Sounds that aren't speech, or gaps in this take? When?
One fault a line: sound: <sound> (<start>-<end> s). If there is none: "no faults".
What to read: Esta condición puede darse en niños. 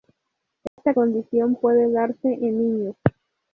sound: dropout (0.7-0.8 s)